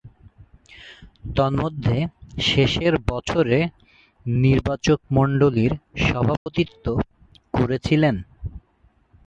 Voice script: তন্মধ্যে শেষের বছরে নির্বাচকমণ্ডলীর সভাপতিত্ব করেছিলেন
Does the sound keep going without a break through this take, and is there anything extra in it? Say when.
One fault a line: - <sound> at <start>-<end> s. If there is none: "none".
- dropout at 6.4-6.5 s